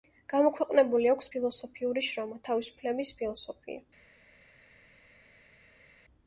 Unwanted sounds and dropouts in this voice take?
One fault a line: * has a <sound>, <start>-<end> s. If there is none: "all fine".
all fine